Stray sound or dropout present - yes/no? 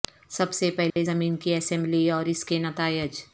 yes